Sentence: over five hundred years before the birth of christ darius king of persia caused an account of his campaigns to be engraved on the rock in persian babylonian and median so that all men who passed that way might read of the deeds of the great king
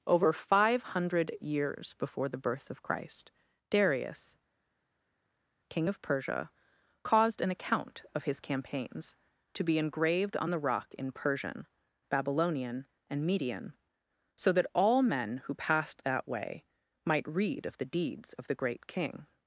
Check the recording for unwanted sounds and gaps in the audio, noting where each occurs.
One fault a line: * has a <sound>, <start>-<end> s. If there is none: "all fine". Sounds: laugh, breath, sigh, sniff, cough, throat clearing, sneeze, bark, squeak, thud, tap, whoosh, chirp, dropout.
all fine